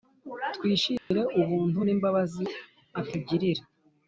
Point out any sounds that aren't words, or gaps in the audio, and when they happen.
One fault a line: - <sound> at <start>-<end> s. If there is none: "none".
- dropout at 1.0-1.1 s